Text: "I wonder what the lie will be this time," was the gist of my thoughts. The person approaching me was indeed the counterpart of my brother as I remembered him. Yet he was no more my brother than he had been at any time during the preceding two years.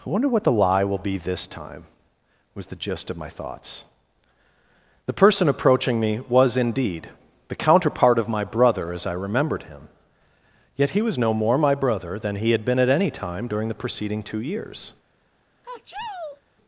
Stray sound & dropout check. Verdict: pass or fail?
fail